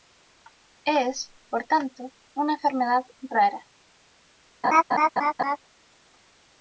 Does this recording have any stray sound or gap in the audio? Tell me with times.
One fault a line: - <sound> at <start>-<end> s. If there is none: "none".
- laugh at 4.6-5.6 s